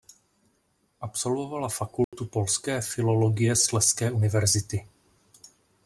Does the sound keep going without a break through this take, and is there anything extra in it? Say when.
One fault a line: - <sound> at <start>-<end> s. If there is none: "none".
- dropout at 2.0-2.1 s